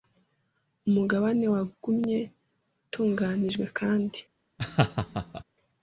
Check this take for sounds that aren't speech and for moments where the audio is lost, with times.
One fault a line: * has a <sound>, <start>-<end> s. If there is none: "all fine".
* has a laugh, 4.6-5.4 s